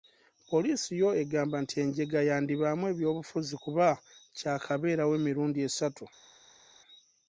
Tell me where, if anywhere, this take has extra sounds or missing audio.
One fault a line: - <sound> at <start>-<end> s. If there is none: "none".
none